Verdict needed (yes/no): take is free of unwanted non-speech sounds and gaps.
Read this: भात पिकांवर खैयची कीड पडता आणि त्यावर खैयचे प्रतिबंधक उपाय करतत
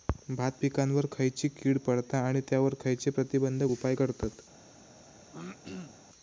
no